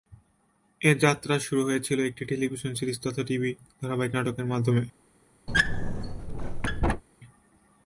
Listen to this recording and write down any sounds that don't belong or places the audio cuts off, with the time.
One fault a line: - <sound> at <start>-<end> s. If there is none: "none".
- squeak at 5.5-7.0 s